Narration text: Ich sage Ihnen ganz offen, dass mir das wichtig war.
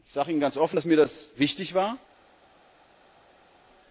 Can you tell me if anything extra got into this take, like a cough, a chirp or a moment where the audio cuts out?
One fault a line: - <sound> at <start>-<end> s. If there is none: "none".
none